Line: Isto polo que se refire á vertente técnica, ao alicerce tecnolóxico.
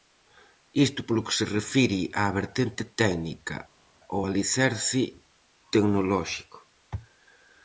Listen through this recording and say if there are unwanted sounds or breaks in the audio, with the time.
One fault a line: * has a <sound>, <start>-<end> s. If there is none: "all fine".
all fine